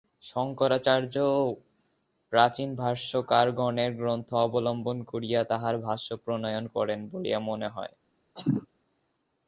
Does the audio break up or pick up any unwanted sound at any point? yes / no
yes